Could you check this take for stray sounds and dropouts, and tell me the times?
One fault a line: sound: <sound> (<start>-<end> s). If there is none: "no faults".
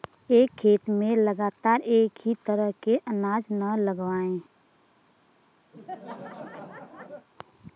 sound: laugh (5.7-7.3 s)